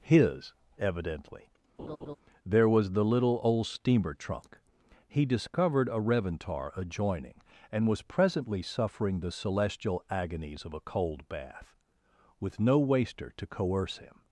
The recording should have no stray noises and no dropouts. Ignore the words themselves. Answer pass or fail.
fail